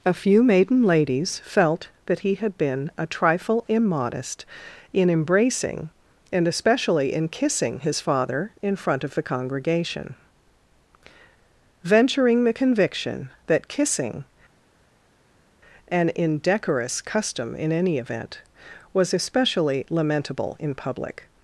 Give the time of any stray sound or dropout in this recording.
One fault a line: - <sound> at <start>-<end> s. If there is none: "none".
none